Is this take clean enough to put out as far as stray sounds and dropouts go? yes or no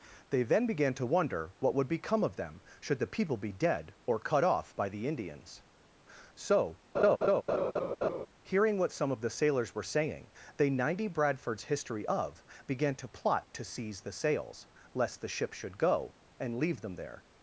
no